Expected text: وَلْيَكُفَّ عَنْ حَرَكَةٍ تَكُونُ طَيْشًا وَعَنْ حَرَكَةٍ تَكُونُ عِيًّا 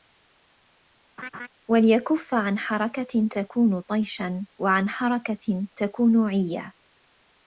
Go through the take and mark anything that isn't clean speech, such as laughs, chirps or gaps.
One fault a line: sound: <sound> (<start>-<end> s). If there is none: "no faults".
sound: laugh (1.2-1.5 s)